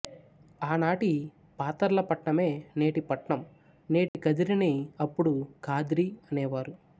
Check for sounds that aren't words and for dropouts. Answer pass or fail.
fail